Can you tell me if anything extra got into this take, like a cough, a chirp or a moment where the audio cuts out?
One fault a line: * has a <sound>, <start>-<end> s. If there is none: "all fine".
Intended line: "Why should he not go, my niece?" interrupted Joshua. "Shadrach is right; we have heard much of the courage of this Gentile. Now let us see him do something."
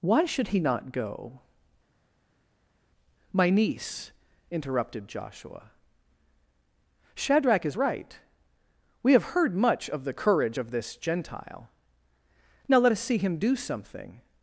all fine